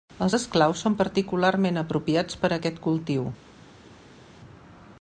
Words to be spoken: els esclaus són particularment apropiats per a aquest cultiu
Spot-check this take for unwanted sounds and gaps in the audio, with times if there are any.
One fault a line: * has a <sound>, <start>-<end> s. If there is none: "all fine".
all fine